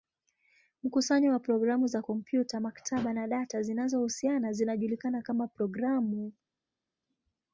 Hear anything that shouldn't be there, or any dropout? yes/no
no